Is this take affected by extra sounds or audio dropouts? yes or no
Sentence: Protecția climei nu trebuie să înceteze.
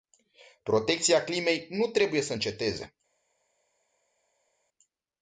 no